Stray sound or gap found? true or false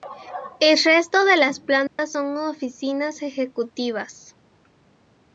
true